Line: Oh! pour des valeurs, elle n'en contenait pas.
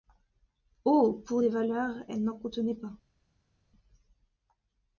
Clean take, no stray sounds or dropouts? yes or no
yes